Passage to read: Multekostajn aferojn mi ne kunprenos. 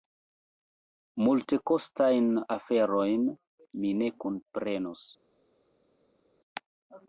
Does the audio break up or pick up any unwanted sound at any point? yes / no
no